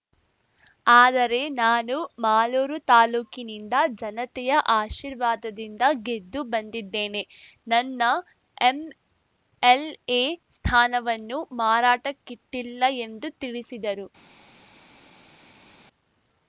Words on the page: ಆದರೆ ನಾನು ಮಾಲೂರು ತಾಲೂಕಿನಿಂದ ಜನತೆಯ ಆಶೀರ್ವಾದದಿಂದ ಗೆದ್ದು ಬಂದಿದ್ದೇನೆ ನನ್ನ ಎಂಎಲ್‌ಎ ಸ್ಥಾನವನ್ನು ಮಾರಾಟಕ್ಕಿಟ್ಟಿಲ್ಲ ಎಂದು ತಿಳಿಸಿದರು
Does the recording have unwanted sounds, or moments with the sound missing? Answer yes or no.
no